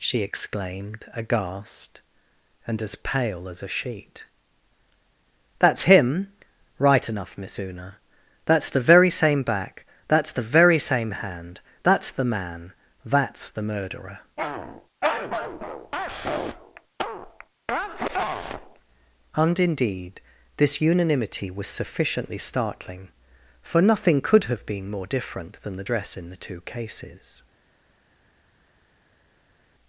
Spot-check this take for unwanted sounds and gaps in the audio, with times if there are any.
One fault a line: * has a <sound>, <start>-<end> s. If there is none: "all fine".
all fine